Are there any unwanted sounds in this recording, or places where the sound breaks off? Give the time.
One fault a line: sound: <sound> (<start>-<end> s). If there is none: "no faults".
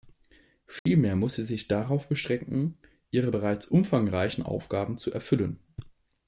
sound: dropout (0.8-0.9 s)